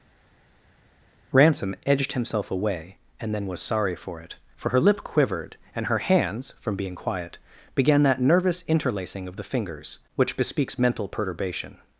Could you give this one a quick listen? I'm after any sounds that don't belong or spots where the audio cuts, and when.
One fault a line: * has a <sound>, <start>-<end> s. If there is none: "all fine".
all fine